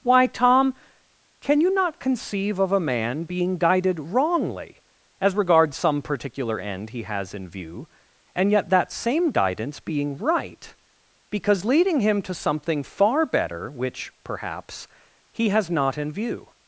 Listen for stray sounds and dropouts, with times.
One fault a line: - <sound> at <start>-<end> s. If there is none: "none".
none